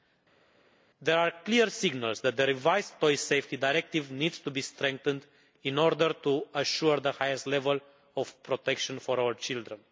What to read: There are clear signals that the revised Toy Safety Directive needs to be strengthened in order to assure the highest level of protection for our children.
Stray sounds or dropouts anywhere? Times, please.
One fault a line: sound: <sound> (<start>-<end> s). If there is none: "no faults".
no faults